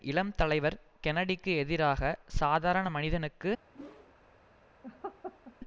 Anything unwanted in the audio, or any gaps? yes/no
yes